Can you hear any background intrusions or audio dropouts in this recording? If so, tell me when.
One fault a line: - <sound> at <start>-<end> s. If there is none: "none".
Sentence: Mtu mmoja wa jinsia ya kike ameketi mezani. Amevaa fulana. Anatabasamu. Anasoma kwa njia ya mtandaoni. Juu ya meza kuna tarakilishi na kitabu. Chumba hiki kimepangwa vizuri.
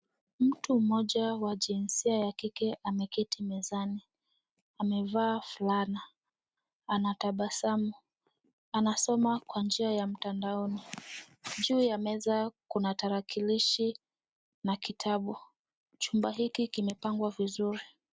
none